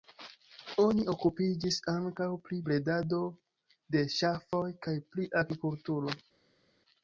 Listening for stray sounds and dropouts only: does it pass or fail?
pass